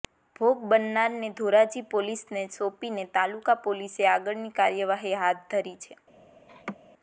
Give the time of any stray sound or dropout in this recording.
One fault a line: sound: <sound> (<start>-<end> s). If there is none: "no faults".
sound: laugh (6.5-6.8 s)